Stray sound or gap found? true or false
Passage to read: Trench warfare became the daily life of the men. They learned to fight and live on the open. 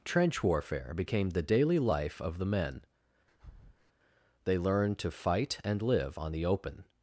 true